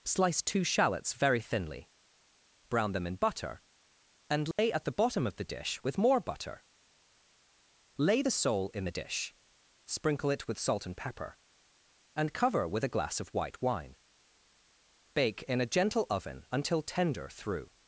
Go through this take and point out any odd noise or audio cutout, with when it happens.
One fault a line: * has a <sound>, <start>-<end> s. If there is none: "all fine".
* has a dropout, 4.5-4.6 s